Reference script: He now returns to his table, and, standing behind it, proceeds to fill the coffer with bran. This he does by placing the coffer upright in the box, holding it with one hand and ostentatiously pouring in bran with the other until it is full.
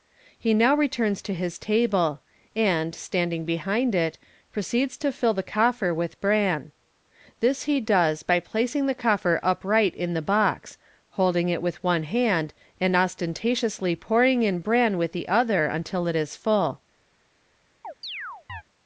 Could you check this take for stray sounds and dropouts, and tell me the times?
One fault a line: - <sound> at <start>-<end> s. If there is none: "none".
- chirp at 17.8-18.6 s